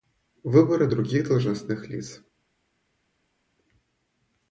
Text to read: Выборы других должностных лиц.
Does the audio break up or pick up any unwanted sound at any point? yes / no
no